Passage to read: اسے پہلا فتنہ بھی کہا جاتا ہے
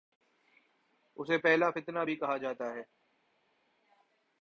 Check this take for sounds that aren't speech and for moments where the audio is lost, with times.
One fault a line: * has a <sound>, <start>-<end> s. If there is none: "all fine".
all fine